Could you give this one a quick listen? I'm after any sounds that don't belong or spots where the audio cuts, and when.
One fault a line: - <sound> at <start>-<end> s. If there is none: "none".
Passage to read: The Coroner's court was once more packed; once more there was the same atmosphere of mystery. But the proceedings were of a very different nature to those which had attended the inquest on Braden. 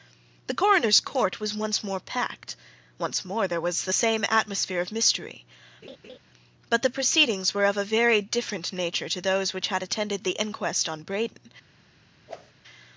- laugh at 5.8-6.2 s
- whoosh at 12.3-12.5 s